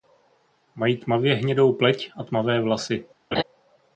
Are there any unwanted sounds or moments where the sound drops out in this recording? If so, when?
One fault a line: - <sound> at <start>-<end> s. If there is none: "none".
- laugh at 3.3-3.4 s